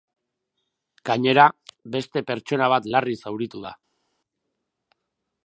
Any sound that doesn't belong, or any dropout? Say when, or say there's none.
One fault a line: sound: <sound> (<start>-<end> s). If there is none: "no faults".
no faults